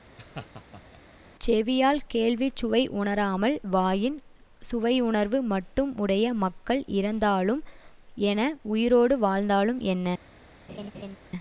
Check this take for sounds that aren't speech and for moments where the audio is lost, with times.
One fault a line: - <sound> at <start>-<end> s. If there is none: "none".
- laugh at 0.2-1.0 s
- laugh at 10.7-11.2 s